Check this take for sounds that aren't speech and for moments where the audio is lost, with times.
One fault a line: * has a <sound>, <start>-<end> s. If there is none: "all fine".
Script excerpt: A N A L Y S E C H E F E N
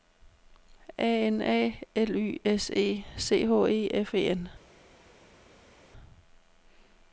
all fine